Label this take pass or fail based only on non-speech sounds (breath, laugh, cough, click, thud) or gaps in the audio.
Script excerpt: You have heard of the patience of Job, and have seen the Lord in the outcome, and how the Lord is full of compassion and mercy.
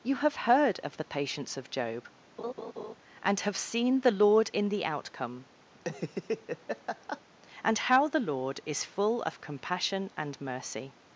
fail